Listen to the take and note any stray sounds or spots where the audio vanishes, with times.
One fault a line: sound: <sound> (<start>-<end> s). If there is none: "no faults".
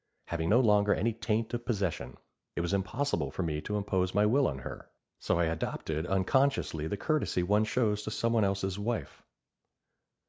no faults